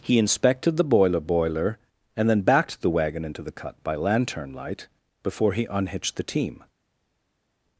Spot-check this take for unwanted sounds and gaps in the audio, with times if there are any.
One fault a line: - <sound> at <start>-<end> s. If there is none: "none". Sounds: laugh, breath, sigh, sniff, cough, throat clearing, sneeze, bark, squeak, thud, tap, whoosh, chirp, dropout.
none